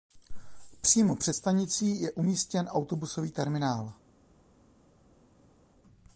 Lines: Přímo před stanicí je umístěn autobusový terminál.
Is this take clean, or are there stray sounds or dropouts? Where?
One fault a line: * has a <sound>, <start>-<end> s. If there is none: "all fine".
all fine